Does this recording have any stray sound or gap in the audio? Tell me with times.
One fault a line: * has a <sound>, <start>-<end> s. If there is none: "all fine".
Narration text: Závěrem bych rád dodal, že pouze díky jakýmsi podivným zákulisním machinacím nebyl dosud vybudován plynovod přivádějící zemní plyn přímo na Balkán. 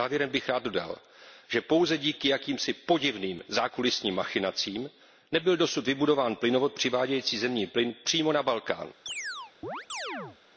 * has a chirp, 9.1-10.4 s